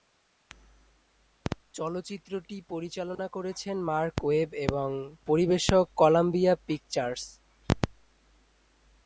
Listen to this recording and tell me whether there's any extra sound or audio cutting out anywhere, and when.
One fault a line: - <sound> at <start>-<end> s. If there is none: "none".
- dropout at 3.1-3.2 s